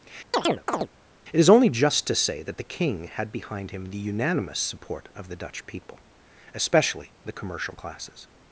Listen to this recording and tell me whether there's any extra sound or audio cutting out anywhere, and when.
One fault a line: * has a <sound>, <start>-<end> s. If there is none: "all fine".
* has a chirp, 0.3-0.9 s